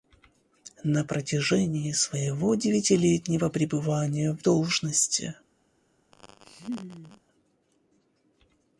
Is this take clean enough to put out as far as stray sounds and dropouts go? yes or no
no